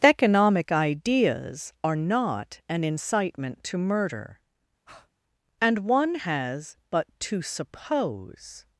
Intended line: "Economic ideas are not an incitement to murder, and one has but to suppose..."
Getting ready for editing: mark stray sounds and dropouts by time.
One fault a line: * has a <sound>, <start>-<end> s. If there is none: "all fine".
* has a breath, 4.9-5.1 s